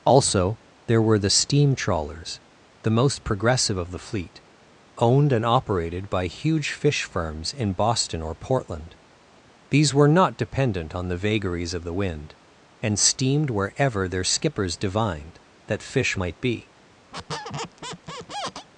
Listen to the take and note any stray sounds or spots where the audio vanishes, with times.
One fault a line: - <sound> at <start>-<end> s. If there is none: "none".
- squeak at 17.1-18.7 s